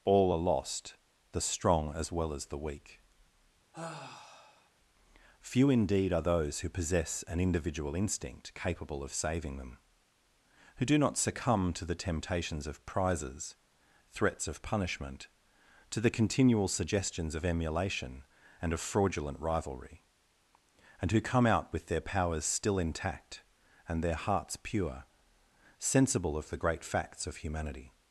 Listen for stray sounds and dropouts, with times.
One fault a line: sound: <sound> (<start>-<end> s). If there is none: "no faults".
sound: sigh (3.7-4.7 s)